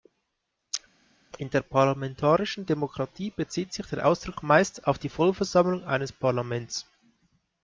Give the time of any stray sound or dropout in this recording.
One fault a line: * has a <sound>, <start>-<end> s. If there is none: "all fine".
all fine